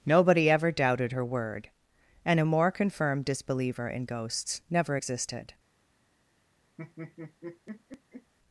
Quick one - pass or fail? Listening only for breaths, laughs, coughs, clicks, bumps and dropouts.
fail